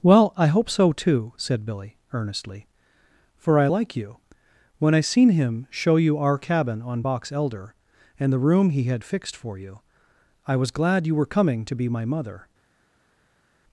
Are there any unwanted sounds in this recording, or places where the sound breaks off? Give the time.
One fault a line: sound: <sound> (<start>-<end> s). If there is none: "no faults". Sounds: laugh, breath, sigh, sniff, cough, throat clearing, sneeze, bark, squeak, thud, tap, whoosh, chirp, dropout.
no faults